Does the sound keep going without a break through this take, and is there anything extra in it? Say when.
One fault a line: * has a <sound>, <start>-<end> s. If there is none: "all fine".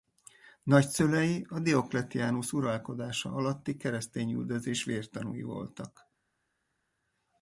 all fine